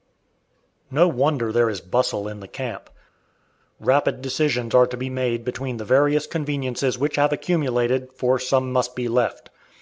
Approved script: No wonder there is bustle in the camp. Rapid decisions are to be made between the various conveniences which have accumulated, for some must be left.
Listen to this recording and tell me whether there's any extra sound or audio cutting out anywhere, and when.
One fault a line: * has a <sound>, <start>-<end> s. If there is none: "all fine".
all fine